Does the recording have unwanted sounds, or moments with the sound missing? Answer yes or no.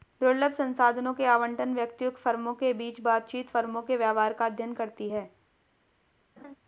yes